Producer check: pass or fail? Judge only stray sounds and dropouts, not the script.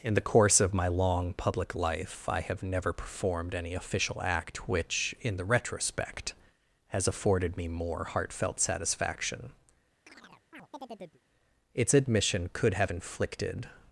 fail